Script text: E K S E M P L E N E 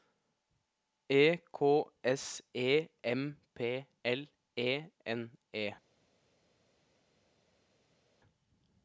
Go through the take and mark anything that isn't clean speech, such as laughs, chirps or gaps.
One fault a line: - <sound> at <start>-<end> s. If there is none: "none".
none